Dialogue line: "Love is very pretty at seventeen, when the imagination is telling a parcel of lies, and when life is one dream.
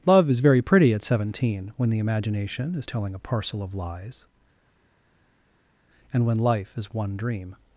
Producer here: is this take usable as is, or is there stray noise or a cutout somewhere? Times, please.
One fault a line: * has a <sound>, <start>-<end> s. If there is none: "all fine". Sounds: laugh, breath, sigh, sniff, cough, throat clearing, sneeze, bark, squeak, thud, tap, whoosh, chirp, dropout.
all fine